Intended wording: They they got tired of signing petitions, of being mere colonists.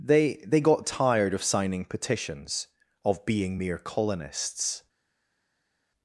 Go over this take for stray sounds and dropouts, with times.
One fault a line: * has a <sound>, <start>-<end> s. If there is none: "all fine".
all fine